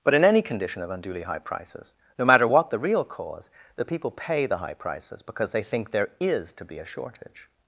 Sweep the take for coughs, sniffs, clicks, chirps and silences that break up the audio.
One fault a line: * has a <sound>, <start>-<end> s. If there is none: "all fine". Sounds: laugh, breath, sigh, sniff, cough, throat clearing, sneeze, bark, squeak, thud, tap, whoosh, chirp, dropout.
all fine